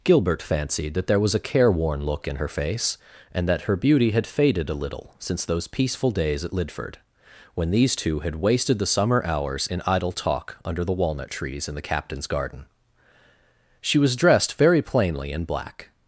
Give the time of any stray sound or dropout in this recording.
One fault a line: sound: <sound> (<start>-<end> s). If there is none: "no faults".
no faults